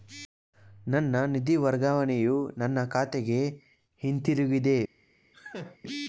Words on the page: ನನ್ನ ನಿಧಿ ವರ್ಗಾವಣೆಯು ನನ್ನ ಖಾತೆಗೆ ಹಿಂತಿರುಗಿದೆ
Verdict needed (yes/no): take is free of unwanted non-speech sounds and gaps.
no